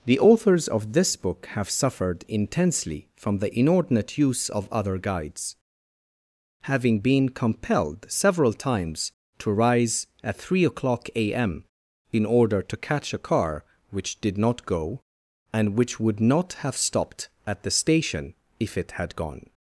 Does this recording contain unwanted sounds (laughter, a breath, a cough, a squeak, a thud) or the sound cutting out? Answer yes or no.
no